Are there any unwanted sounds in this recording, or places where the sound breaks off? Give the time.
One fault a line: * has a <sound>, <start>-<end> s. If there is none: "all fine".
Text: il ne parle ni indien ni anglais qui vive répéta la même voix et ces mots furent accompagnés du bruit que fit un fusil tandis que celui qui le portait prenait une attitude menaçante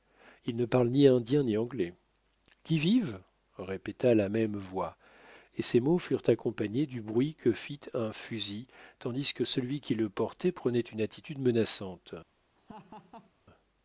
* has a laugh, 12.6-13.3 s